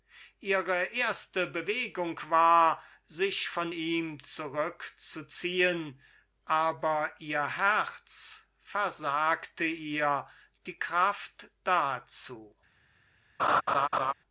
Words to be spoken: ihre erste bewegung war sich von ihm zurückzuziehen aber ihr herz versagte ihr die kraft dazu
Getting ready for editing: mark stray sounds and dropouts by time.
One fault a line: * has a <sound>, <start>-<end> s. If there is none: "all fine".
* has a laugh, 13.4-14.1 s